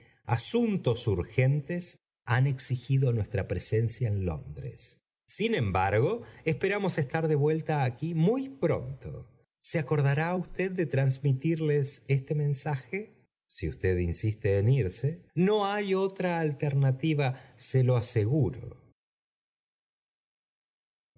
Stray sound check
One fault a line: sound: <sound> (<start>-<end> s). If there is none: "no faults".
no faults